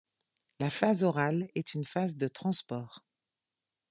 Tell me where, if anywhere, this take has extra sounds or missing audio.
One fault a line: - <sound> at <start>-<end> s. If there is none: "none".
none